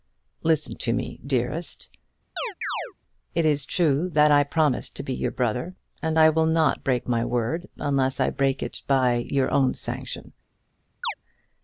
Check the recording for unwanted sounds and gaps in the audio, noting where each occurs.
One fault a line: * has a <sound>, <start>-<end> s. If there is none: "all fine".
* has a chirp, 2.4-2.9 s
* has a chirp, 11.0-11.1 s